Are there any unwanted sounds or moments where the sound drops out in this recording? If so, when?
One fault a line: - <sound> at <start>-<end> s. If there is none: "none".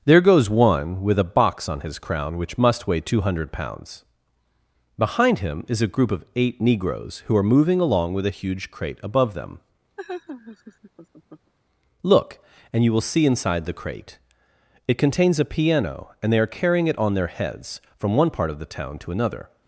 - laugh at 10.0-11.5 s